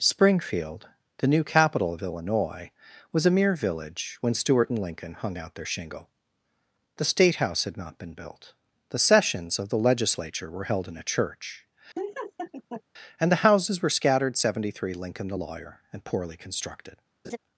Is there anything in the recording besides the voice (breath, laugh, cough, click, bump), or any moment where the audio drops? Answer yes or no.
yes